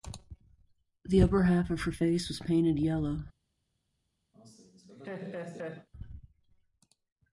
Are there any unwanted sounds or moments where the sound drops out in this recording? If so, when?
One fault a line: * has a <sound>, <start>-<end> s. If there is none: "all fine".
* has a laugh, 4.3-5.9 s